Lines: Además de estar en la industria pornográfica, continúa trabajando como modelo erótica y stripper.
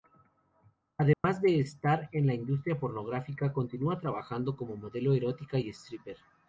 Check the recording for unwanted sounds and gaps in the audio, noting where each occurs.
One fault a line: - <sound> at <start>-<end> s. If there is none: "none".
- dropout at 1.1-1.2 s